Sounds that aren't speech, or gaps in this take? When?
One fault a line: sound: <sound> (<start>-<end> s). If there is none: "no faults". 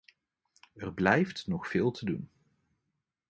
no faults